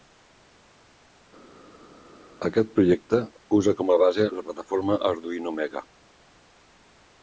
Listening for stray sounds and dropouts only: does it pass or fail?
pass